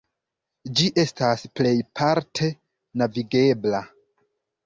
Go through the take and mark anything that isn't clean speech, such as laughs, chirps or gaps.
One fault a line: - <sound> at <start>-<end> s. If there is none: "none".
none